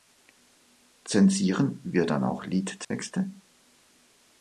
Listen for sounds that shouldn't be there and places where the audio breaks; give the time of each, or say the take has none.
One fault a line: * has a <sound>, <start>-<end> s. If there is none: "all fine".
* has a dropout, 2.8-2.9 s